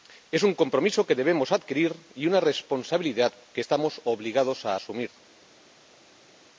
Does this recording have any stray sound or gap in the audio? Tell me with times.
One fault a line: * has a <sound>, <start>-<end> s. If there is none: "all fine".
all fine